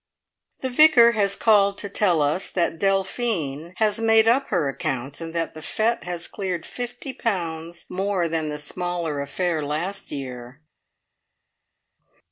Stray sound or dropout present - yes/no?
no